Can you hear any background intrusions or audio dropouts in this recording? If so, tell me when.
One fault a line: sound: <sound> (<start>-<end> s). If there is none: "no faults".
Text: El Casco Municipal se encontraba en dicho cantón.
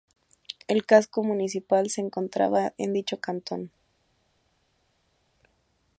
no faults